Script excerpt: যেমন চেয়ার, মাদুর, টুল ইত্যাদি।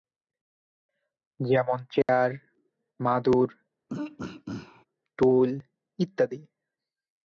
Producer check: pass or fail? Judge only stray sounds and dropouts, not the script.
fail